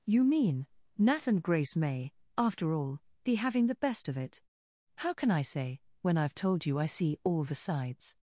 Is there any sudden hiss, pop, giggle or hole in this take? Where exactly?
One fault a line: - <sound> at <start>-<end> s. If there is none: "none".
none